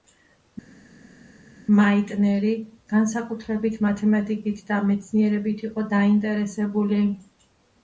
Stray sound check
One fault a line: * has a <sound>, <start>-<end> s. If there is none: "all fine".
all fine